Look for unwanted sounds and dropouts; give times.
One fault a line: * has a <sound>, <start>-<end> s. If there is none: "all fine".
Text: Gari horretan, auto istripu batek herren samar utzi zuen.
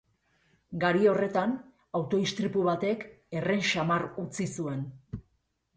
all fine